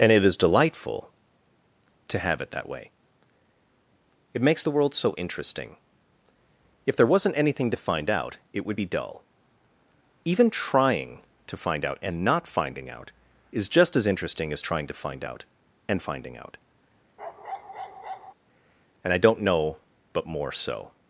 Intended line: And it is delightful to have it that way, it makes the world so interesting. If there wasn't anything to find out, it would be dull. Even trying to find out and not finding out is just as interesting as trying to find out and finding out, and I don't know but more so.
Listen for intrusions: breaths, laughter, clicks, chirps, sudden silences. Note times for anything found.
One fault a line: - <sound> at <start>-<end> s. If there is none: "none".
- bark at 17.2-18.3 s